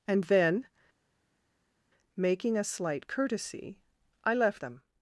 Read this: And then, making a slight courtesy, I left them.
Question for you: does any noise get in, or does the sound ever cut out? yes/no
no